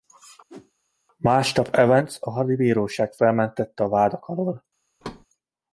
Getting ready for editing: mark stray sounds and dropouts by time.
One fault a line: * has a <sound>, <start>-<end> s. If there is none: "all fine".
* has a whoosh, 0.5-0.7 s
* has a thud, 5.0-5.3 s